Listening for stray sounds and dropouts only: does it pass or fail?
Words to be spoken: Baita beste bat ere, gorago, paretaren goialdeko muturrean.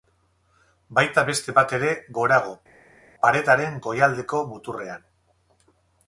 pass